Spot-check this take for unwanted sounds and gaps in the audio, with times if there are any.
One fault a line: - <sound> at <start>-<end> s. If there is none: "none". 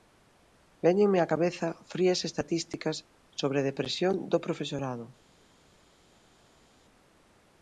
none